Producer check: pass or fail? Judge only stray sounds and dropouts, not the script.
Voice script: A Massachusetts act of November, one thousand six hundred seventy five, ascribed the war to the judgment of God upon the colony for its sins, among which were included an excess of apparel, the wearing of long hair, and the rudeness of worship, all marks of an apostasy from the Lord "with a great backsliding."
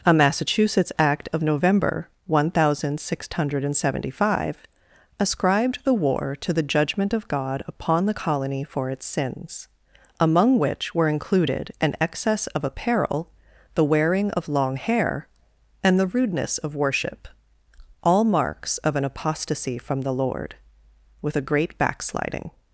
pass